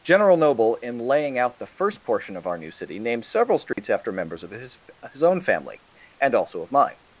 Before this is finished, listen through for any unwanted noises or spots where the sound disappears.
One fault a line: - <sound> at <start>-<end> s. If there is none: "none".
- dropout at 3.7-3.8 s